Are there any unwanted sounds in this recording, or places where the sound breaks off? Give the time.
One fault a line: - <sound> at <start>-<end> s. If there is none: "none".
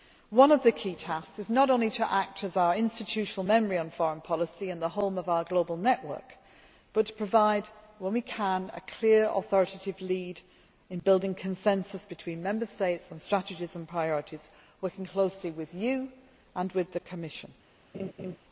- laugh at 17.9-18.4 s